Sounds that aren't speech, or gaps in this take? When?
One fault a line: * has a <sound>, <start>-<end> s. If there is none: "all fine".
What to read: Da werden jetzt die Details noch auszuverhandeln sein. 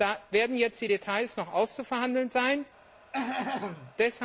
* has a throat clearing, 3.1-3.9 s